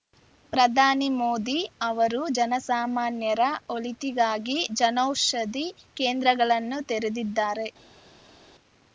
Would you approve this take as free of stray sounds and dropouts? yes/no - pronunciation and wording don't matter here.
yes